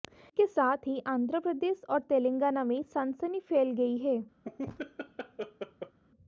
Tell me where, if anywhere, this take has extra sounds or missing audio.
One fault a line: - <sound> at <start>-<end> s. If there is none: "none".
- laugh at 4.4-6.0 s